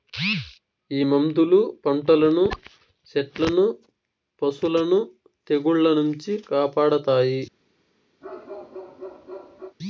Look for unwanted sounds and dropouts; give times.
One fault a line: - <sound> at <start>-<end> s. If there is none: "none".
- bark at 8.2-9.8 s